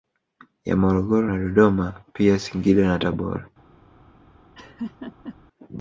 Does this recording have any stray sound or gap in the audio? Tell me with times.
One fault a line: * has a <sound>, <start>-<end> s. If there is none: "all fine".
* has a laugh, 4.5-5.4 s